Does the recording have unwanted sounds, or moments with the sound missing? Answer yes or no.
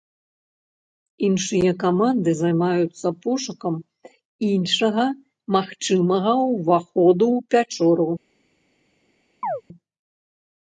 yes